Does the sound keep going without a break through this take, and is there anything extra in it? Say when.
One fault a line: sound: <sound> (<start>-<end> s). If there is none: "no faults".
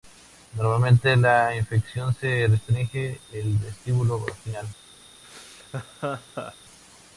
sound: laugh (5.2-6.6 s)